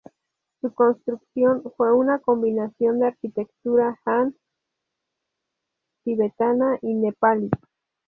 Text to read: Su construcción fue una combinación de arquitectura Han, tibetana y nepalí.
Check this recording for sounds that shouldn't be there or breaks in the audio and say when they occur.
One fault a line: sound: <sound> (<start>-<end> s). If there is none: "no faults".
no faults